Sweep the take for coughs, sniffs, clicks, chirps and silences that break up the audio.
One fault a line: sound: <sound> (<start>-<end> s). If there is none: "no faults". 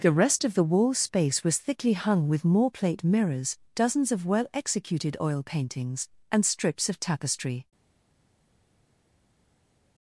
no faults